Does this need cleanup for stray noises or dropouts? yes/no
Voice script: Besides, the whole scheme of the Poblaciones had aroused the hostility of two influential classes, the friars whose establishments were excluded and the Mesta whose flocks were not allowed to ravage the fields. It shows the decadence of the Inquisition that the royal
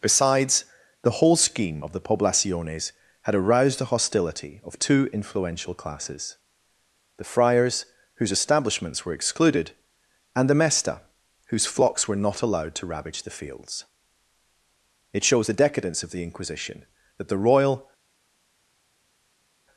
no